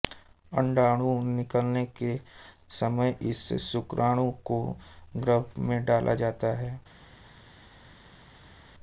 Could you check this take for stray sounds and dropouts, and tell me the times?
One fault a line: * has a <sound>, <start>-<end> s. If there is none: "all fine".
all fine